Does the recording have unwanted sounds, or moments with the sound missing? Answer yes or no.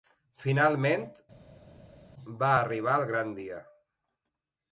no